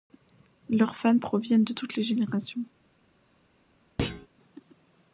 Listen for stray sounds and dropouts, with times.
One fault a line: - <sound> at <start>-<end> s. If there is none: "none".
- thud at 4.0-4.3 s